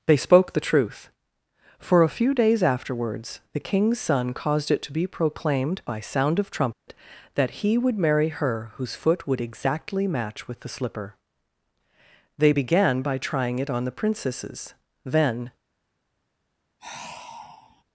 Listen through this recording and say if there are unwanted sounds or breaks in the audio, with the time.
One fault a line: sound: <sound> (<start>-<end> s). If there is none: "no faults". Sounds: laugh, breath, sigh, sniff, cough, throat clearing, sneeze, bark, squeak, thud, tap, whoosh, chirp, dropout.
sound: dropout (6.7-6.9 s)
sound: sigh (16.8-17.8 s)